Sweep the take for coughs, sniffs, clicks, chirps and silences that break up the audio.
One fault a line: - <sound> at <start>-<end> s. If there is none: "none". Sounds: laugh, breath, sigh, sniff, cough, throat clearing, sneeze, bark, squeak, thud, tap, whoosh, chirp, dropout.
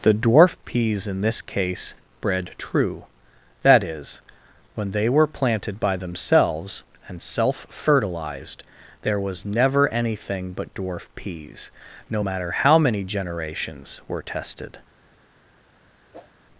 - whoosh at 16.1-16.3 s